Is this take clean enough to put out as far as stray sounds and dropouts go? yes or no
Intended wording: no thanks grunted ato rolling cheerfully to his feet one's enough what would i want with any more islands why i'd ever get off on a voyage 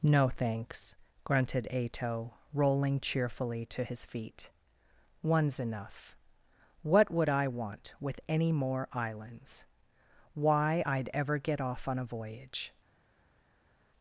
yes